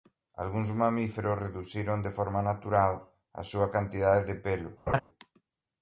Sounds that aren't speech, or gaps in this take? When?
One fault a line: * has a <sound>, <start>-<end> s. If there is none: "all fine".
* has a laugh, 4.9-5.0 s